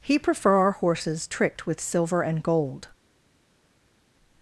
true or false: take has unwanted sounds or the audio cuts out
false